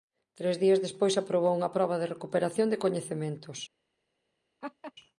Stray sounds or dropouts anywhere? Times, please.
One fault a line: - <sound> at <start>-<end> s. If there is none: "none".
- laugh at 4.6-4.9 s